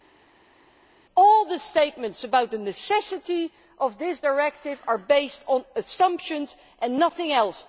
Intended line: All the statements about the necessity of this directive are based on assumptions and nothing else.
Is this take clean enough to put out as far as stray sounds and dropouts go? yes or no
yes